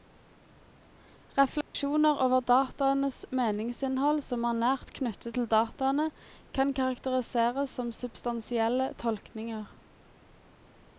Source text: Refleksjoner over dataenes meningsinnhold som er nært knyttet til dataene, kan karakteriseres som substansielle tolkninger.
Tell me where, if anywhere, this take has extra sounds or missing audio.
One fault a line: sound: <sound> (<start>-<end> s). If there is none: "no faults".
sound: dropout (1.6-1.7 s)